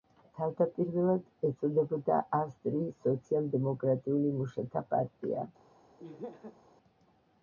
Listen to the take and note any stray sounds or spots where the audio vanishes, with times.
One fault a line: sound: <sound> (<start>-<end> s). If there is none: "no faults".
sound: laugh (6.0-6.6 s)